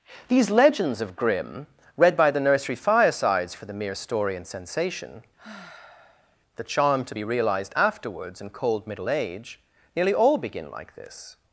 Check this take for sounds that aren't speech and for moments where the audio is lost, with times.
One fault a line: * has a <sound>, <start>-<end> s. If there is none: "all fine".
* has a sigh, 5.4-6.4 s